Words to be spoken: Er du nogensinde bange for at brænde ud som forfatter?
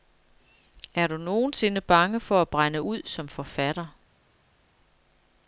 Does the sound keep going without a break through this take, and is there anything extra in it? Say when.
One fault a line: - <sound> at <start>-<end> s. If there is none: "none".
none